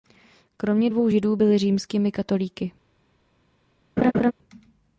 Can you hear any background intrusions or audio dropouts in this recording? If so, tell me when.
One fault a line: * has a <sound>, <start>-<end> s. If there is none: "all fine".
* has a laugh, 4.0-4.3 s